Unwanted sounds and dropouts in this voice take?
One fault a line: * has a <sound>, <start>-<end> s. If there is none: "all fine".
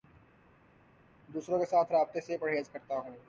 all fine